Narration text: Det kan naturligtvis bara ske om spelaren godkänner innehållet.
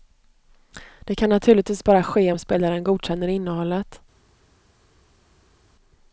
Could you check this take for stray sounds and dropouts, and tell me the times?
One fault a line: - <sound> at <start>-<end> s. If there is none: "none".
none